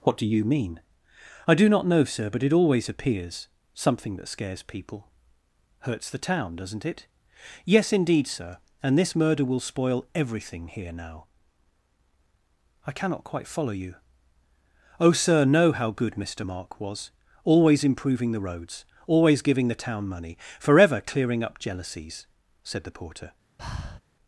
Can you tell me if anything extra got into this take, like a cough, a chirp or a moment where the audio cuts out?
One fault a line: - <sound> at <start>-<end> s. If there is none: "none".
- breath at 23.6-24.0 s